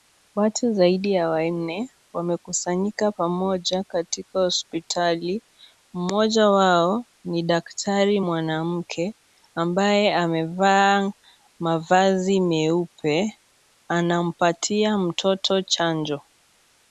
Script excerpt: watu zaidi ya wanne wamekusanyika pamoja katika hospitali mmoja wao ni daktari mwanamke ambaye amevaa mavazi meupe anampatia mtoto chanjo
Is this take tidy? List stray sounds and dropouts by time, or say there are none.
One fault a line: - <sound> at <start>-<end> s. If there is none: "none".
none